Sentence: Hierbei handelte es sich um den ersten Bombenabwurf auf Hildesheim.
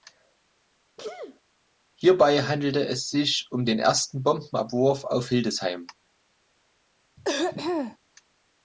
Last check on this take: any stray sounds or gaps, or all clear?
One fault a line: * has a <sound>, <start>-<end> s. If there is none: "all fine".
* has a sneeze, 1.0-1.4 s
* has a throat clearing, 7.2-8.0 s